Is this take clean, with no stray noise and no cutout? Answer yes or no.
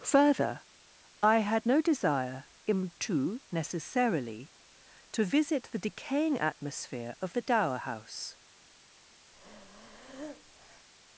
no